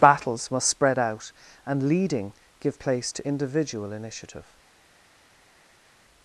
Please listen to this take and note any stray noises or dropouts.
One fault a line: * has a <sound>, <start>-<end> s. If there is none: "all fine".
all fine